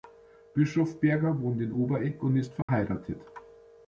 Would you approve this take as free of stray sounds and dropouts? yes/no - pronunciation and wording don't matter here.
no